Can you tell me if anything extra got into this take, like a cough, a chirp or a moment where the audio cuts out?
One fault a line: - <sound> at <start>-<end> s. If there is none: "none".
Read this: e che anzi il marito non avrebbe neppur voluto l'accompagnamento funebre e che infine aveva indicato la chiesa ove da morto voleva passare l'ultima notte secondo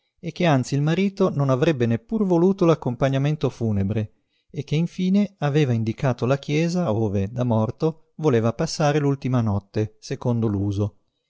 none